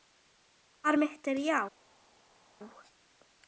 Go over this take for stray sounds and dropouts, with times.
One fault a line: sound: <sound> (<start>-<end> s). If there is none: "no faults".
no faults